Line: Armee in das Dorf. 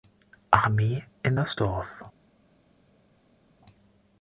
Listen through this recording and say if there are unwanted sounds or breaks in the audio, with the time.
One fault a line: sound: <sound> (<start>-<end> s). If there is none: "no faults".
no faults